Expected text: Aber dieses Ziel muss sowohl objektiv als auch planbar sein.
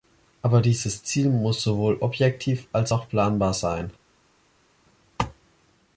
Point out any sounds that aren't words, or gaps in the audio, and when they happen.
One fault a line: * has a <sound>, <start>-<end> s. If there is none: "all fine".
all fine